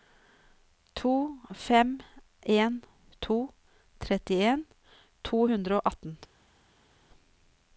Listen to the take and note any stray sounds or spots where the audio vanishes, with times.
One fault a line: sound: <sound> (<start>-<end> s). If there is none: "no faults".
no faults